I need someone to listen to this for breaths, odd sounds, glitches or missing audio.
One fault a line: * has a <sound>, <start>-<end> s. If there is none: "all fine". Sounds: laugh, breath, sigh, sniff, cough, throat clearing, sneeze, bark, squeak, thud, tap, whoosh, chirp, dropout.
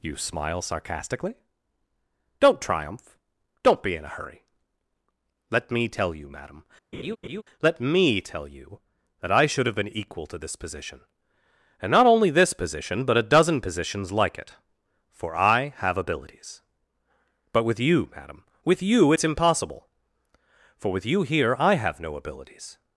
* has a laugh, 6.9-7.4 s